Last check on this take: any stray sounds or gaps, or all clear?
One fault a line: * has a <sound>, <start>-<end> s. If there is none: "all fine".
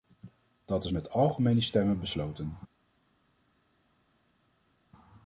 all fine